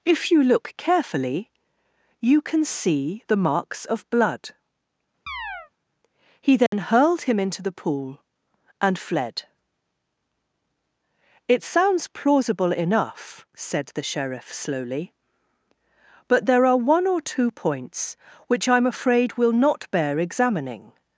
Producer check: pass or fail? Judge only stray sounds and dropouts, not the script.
fail